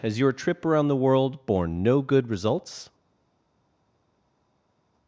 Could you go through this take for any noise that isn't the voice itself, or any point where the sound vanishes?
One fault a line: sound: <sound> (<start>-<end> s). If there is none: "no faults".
no faults